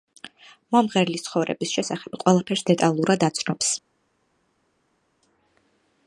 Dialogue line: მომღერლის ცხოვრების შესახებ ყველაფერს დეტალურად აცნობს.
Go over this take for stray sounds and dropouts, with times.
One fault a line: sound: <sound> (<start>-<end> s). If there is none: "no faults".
no faults